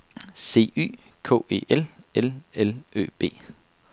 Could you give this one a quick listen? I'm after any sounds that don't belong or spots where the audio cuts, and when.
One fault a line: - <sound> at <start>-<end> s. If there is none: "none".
none